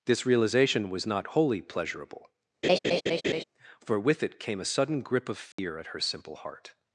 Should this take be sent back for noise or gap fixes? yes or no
yes